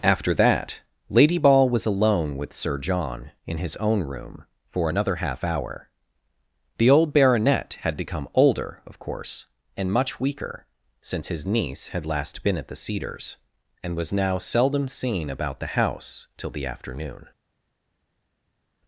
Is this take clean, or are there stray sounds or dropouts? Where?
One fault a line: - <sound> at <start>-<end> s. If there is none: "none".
none